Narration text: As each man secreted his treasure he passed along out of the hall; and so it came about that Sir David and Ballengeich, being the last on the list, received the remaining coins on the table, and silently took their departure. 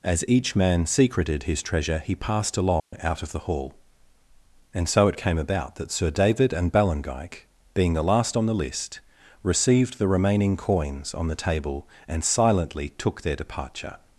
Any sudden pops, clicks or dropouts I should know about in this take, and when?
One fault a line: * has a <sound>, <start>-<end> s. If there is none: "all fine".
* has a dropout, 2.8-2.9 s